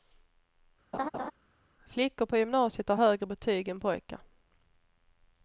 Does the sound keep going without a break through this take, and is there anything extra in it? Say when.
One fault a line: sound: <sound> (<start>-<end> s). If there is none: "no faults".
sound: laugh (0.9-1.3 s)